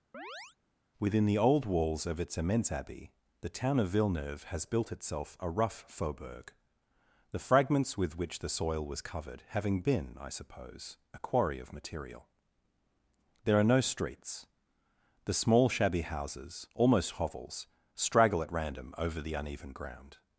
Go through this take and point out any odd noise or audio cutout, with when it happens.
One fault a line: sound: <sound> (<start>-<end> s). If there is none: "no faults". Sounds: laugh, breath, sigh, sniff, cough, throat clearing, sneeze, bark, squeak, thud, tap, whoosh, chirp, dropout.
sound: chirp (0.1-0.6 s)